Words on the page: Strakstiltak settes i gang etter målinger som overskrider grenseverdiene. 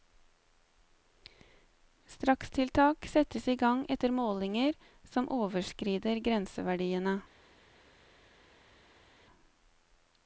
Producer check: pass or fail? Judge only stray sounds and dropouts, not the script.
pass